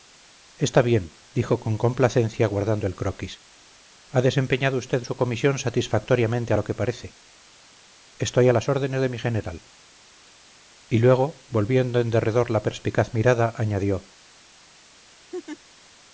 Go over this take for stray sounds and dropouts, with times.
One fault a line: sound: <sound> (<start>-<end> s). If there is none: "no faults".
sound: laugh (15.3-15.6 s)